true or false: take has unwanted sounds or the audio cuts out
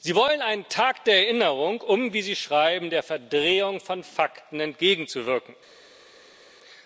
false